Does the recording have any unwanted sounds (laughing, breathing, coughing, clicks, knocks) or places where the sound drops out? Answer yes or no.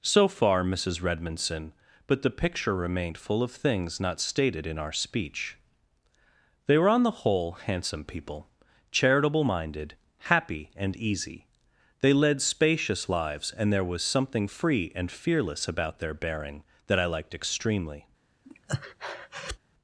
yes